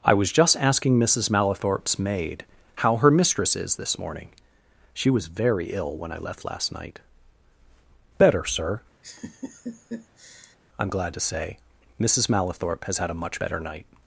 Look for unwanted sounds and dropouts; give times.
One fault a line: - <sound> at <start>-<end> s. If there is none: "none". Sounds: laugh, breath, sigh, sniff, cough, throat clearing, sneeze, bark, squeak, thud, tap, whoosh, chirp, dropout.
- laugh at 9.0-10.6 s